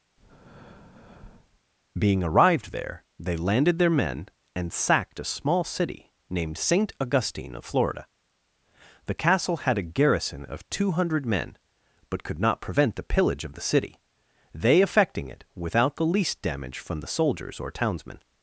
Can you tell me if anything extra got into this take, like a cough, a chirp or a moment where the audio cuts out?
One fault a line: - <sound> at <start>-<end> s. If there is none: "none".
- breath at 0.2-1.6 s